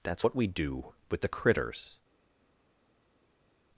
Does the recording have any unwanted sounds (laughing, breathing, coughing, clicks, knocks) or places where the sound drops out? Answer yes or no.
no